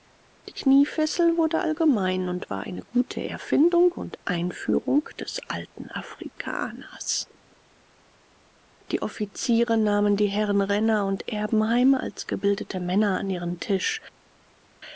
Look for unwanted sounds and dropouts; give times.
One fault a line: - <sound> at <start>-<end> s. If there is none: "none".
none